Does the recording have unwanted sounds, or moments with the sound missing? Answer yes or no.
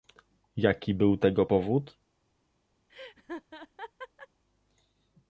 yes